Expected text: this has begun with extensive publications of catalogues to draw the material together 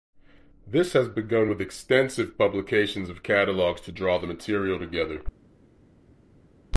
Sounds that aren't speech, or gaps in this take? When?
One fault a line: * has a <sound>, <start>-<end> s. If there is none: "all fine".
all fine